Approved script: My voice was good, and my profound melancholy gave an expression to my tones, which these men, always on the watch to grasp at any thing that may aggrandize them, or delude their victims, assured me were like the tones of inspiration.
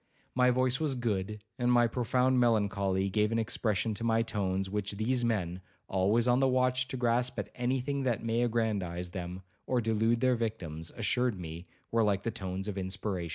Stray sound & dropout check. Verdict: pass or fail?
pass